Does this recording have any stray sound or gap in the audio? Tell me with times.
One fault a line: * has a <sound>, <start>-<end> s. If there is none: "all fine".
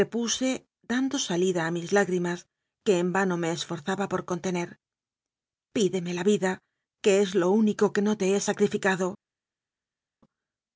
all fine